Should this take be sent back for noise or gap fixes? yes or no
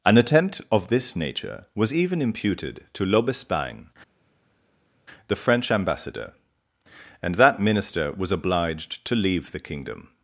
no